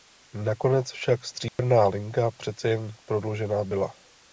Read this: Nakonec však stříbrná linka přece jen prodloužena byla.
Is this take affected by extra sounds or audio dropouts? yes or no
yes